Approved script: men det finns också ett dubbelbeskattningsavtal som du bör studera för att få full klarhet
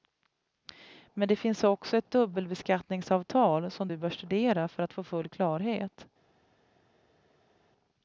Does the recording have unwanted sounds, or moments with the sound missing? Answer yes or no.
no